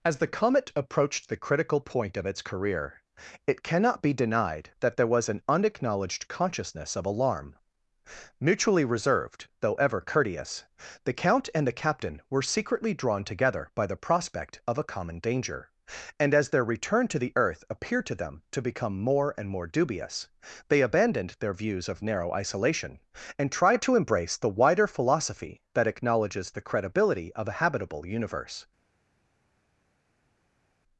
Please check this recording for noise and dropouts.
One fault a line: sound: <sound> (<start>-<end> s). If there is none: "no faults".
no faults